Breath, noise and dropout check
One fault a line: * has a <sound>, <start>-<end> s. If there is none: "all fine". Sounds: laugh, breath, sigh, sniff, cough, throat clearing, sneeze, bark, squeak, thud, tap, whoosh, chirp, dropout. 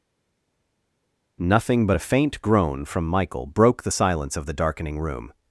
all fine